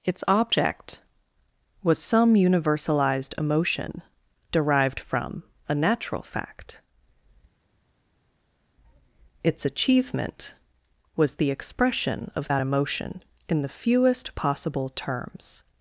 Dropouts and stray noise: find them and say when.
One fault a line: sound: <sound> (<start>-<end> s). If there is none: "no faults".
no faults